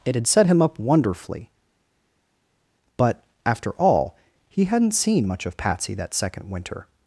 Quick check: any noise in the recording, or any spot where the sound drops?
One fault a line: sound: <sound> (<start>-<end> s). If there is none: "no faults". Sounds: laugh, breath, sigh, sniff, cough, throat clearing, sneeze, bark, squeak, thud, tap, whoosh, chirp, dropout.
no faults